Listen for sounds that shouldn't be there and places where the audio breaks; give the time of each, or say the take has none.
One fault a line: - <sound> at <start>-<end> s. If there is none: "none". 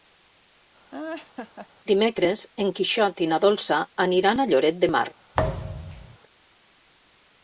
- laugh at 0.9-1.7 s
- thud at 5.3-6.2 s